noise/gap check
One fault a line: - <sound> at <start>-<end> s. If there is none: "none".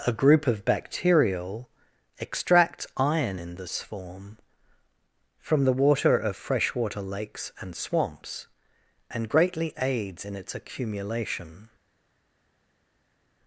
none